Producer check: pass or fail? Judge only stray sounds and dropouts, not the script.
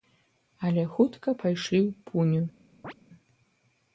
fail